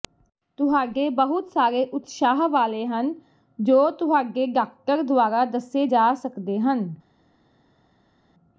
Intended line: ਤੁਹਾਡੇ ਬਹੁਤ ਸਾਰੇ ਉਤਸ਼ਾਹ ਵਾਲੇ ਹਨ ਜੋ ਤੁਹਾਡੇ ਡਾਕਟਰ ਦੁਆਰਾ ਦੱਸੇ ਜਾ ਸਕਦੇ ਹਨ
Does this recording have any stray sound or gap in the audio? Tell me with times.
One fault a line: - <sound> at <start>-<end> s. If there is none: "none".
none